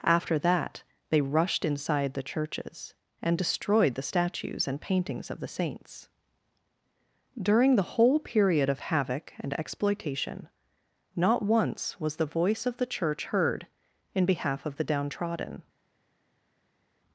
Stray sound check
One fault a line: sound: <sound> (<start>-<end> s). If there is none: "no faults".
no faults